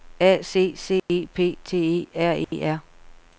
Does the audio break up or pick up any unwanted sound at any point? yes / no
yes